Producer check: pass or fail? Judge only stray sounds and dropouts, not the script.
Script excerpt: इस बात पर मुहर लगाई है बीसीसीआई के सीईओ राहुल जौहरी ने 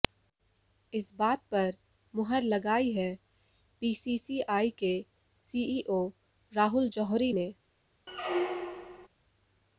fail